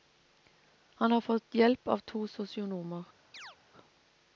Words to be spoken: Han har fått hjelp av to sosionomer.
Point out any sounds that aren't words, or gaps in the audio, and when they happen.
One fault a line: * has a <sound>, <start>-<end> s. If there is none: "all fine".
* has a chirp, 3.3-3.6 s